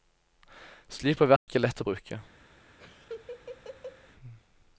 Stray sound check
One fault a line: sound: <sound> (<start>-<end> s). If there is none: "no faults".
sound: dropout (1.4-1.5 s)
sound: laugh (2.8-4.1 s)